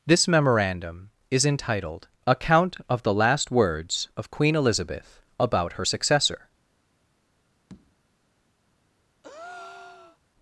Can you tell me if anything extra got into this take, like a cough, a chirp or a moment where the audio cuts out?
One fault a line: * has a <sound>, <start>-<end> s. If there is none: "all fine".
* has a tap, 7.7-8.0 s
* has a breath, 9.2-10.2 s